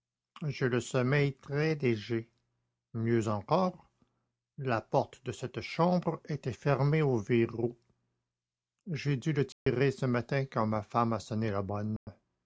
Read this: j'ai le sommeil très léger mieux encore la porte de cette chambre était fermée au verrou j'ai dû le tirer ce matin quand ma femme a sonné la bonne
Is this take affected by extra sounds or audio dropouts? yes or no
yes